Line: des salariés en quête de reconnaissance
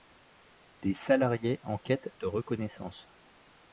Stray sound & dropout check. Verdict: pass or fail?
pass